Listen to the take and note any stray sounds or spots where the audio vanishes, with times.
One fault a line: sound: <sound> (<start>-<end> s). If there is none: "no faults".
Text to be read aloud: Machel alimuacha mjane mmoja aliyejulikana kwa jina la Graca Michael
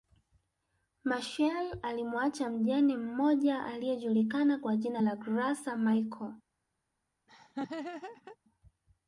sound: laugh (7.3-8.4 s)